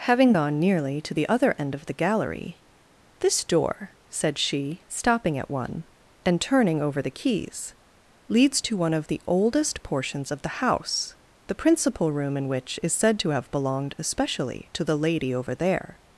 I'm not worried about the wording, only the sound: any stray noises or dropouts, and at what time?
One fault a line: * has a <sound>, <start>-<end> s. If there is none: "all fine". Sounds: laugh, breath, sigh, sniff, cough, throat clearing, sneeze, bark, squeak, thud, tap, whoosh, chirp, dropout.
all fine